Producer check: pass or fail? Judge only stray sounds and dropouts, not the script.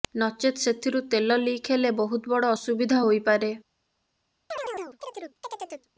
fail